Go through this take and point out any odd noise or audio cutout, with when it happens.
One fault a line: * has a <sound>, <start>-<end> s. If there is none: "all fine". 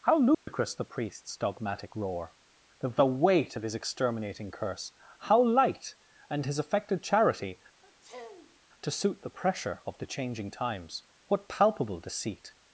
* has a dropout, 0.3-0.5 s
* has a sniff, 7.8-8.6 s